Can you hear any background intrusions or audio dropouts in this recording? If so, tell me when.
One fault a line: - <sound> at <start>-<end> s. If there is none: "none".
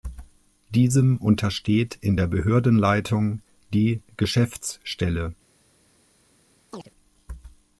- chirp at 6.7-6.9 s